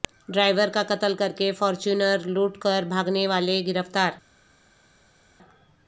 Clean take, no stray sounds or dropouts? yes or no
yes